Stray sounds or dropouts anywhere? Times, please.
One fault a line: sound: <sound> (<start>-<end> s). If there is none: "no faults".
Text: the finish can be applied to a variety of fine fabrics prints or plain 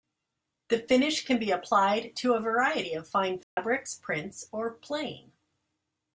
sound: dropout (3.4-3.6 s)